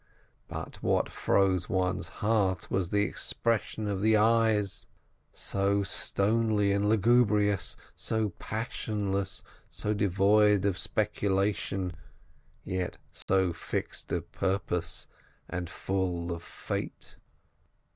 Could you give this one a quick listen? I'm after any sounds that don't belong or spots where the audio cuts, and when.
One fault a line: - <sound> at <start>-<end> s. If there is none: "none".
- dropout at 13.2-13.3 s